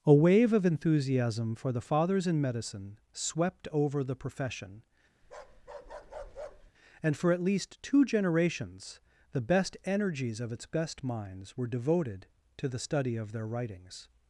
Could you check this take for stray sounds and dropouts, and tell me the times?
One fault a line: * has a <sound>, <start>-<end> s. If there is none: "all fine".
* has a bark, 5.2-6.7 s